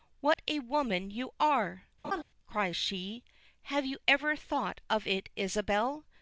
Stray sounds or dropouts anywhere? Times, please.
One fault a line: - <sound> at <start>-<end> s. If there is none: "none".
- dropout at 0.3-0.4 s
- laugh at 2.0-2.2 s